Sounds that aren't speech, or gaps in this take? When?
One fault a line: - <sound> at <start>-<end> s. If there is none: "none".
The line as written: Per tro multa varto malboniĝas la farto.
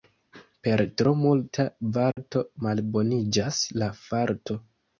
- dropout at 2.1-2.2 s